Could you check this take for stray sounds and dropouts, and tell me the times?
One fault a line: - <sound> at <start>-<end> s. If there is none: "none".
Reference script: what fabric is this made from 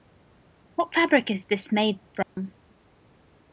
- dropout at 2.2-2.4 s